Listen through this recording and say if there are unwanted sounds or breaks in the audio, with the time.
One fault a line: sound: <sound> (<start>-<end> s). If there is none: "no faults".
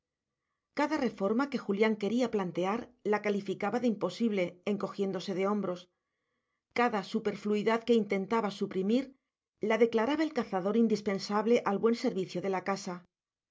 no faults